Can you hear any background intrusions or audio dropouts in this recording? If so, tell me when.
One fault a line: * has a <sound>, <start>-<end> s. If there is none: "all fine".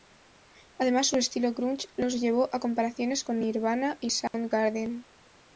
* has a dropout, 4.3-4.3 s